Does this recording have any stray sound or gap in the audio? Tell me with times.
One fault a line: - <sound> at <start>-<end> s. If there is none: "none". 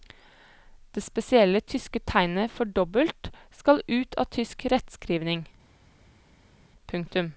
none